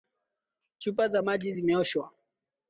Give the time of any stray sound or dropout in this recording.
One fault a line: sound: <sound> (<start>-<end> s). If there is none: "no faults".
no faults